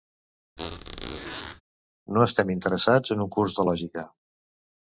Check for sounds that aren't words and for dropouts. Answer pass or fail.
fail